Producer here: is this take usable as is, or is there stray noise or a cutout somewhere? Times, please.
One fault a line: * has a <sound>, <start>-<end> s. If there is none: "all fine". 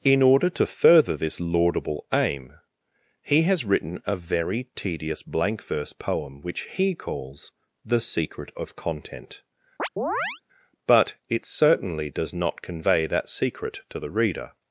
* has a chirp, 9.8-10.4 s